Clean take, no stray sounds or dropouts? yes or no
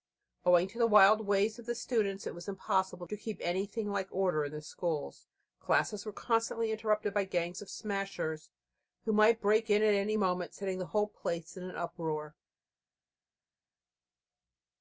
yes